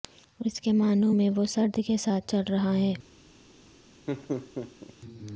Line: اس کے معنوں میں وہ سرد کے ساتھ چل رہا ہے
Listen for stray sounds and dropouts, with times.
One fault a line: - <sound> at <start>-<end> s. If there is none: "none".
- laugh at 4.1-4.9 s